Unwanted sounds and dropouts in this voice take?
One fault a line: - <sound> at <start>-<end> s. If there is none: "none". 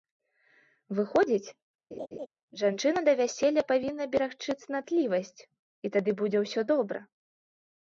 - laugh at 1.9-2.3 s